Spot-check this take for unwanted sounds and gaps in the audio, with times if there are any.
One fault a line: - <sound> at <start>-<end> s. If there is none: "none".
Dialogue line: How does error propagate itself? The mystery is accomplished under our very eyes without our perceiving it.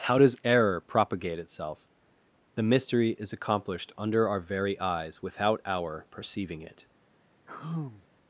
- sigh at 7.5-8.1 s